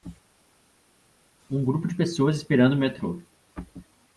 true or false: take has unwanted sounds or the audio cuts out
false